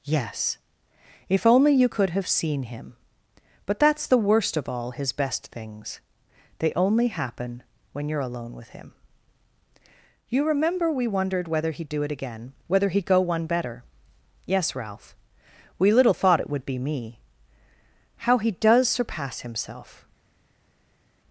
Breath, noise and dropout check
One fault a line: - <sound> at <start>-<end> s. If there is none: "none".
none